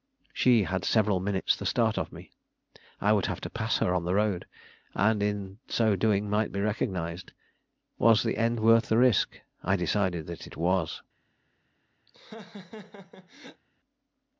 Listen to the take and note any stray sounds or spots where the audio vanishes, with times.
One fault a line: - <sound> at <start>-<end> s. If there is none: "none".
- laugh at 12.1-13.6 s